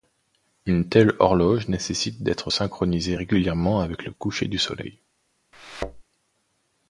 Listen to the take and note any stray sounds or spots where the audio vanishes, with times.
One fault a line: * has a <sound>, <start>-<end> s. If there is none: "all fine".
* has a thud, 5.5-6.0 s